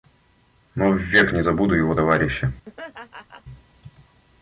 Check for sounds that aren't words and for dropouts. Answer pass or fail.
fail